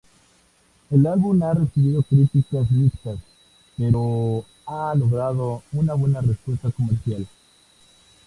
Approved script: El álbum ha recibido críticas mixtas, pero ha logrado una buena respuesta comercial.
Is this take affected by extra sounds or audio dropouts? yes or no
no